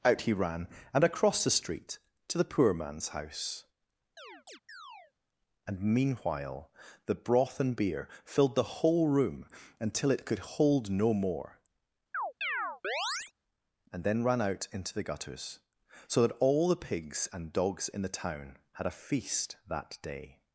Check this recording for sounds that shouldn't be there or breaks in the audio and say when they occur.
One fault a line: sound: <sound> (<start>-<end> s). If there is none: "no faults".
sound: chirp (4.2-5.1 s)
sound: chirp (12.1-13.3 s)